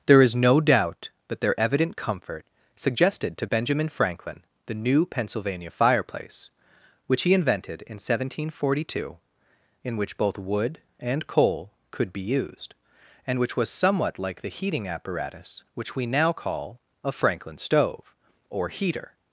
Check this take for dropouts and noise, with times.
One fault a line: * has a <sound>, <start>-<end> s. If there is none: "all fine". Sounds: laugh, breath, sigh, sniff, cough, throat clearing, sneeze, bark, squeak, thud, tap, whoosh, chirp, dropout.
all fine